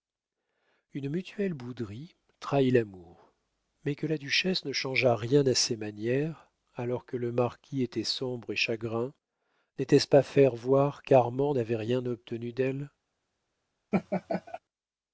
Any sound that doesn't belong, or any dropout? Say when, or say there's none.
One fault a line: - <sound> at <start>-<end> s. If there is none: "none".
- laugh at 13.9-14.6 s